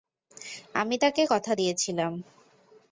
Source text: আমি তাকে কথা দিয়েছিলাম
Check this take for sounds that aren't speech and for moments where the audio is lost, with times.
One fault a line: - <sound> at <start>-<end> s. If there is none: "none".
none